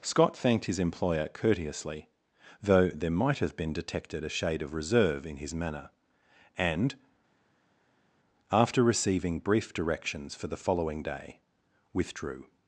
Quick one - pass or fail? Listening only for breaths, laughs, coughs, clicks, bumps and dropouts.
pass